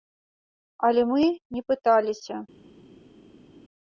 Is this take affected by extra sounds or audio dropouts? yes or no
no